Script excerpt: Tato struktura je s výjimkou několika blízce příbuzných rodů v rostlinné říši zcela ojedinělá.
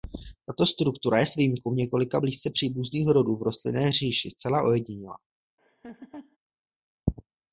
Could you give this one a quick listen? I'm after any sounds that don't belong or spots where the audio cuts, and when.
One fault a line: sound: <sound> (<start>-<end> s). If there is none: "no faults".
sound: laugh (5.6-6.4 s)